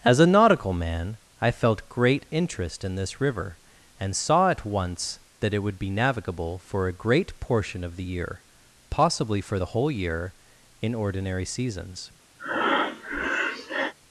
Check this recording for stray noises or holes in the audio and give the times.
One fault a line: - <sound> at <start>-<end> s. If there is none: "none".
- breath at 12.4-13.9 s